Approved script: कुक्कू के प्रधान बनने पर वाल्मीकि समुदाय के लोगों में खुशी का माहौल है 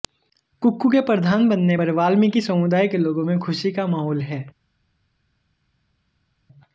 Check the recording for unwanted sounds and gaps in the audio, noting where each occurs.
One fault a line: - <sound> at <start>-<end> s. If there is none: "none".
none